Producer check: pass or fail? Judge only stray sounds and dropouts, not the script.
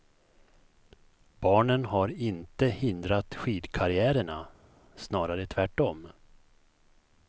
pass